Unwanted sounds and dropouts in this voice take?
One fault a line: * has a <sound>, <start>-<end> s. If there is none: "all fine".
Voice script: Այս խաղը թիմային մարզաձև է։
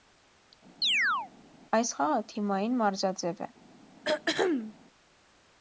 * has a chirp, 0.8-1.3 s
* has a throat clearing, 4.0-4.8 s